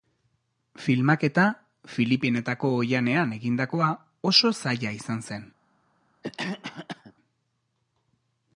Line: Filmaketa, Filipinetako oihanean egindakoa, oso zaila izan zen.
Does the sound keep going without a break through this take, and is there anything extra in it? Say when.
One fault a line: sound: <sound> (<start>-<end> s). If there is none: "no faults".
sound: cough (6.2-7.1 s)